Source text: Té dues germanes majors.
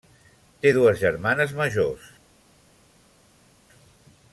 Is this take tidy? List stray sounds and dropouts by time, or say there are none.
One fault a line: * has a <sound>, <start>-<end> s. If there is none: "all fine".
all fine